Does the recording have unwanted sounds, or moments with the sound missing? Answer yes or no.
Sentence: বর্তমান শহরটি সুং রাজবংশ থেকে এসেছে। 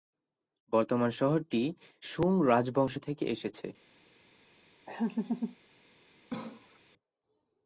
yes